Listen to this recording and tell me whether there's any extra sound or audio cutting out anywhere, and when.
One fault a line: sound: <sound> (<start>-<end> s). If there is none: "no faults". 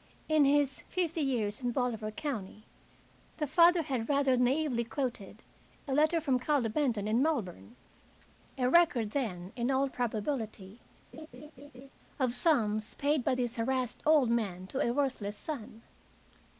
sound: laugh (11.1-11.9 s)